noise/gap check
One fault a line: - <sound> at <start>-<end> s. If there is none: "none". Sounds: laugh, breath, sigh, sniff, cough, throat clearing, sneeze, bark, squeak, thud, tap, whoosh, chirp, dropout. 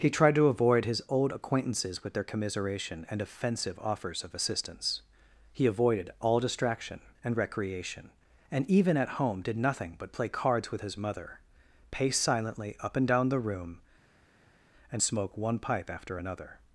none